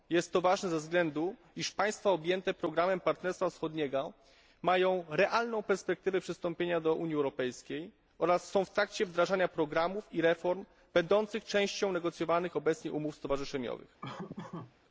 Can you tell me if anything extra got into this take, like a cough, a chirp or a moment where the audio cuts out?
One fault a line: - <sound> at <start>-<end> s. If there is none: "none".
- laugh at 14.0-14.7 s